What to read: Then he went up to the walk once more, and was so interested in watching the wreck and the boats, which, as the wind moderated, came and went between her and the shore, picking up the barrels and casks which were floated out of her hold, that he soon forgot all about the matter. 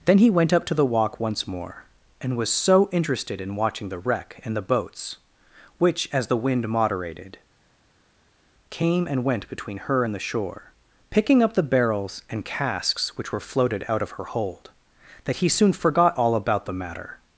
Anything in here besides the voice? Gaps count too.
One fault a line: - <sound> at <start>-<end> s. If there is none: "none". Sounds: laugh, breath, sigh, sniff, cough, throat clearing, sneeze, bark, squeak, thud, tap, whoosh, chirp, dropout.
none